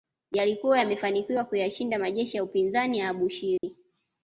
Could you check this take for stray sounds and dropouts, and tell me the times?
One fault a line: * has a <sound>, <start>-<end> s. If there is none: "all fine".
* has a dropout, 3.6-3.6 s